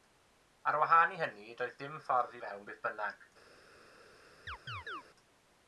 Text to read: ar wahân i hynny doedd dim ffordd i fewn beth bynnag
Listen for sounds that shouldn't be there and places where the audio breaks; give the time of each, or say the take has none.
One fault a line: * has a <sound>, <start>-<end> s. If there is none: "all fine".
* has a chirp, 4.5-5.0 s